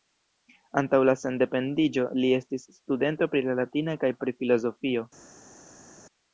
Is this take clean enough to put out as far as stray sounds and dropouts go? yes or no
yes